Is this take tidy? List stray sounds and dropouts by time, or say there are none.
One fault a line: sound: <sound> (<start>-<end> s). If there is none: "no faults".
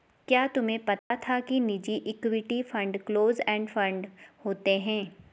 sound: dropout (1.0-1.1 s)